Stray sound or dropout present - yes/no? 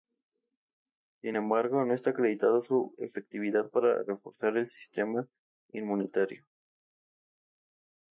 no